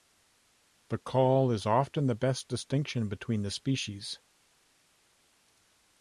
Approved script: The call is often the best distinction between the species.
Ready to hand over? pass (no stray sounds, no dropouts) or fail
pass